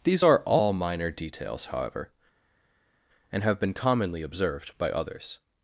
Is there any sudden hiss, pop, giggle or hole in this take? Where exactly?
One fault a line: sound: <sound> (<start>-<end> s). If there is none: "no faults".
no faults